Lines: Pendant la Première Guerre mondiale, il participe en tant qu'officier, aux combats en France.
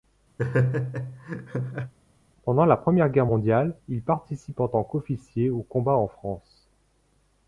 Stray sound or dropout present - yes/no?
yes